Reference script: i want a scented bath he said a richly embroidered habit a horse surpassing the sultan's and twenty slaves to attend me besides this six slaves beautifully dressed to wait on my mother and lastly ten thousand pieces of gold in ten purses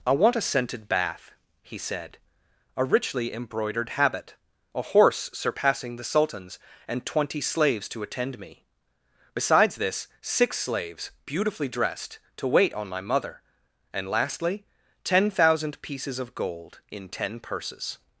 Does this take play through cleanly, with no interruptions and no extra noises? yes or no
yes